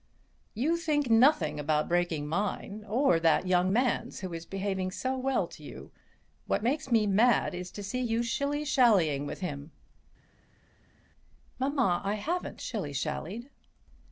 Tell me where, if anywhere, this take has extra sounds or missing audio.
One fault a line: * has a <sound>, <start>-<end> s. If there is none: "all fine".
all fine